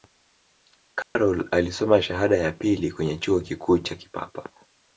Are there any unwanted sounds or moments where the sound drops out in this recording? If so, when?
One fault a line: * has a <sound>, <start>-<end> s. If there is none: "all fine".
* has a dropout, 1.0-1.2 s